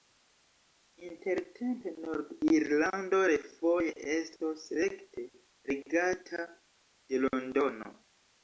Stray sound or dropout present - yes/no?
no